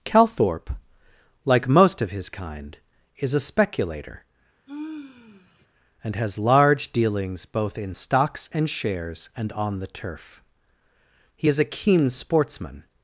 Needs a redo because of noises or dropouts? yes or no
yes